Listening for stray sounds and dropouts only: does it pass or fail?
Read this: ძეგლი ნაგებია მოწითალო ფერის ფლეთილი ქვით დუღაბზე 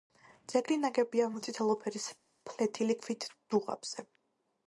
pass